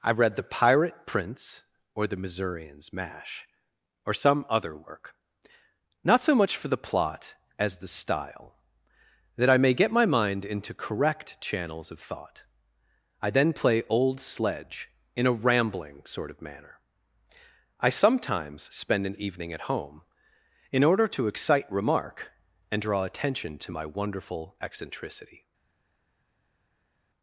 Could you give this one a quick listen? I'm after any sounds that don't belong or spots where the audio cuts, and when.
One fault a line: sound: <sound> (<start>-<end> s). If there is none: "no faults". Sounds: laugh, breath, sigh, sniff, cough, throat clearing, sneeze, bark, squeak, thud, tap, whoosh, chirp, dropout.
no faults